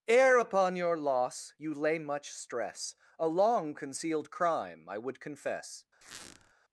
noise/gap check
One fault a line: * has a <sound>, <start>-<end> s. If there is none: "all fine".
* has a squeak, 6.0-6.5 s